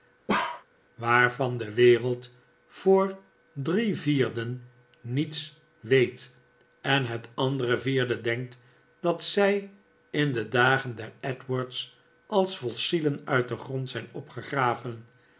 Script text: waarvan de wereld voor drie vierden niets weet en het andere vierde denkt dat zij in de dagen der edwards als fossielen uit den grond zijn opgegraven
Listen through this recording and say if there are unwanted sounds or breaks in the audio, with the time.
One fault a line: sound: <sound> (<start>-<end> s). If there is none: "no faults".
sound: bark (0.3-0.6 s)